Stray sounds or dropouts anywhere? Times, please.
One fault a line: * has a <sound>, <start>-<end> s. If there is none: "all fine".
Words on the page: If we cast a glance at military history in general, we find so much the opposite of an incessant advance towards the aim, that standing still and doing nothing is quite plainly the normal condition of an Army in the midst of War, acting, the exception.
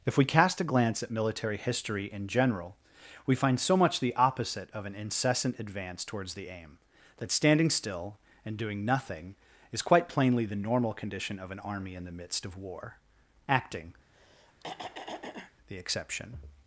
* has a throat clearing, 14.1-15.5 s